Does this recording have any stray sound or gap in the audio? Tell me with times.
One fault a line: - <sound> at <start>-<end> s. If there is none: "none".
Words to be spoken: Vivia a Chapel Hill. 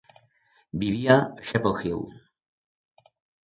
none